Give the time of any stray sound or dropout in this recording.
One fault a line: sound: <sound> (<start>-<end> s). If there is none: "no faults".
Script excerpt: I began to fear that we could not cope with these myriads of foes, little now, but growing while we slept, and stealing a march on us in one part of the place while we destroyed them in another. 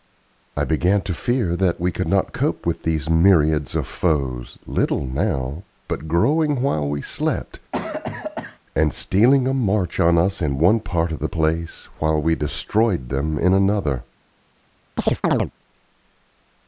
sound: cough (7.7-8.6 s)
sound: chirp (15.0-15.5 s)